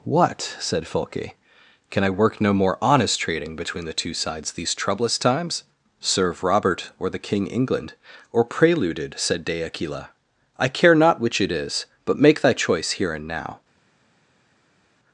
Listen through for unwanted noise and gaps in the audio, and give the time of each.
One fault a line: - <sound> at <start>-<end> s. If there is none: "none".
none